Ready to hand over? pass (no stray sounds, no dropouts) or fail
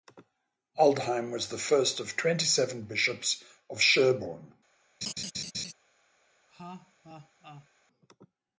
fail